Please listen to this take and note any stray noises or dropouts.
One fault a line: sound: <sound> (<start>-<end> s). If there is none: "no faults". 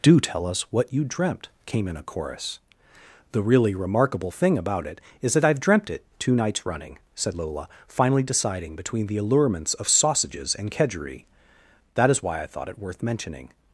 no faults